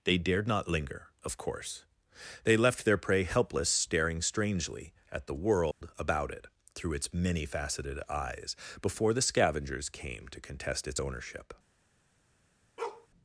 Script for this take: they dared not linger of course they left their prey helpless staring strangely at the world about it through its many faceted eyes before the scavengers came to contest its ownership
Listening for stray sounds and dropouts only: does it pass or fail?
fail